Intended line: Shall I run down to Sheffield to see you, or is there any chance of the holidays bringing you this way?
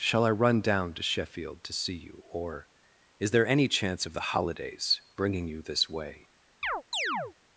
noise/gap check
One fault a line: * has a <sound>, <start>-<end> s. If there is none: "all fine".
* has a chirp, 6.6-7.3 s